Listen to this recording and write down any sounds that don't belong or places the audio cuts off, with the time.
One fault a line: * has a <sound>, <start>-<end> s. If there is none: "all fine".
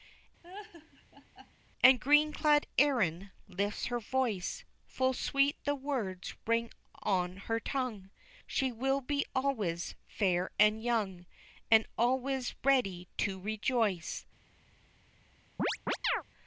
* has a laugh, 0.4-1.5 s
* has a chirp, 15.6-16.2 s